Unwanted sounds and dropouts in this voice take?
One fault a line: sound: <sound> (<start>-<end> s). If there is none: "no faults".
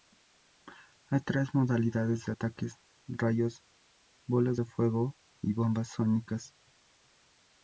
no faults